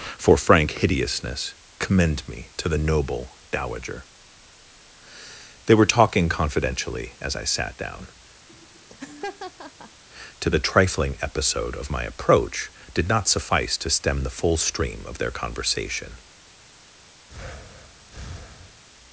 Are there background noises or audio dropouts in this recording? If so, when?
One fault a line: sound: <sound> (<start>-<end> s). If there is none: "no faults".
sound: laugh (8.5-10.0 s)
sound: breath (17.3-18.8 s)